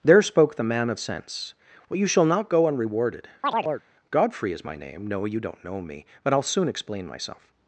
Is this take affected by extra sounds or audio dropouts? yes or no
yes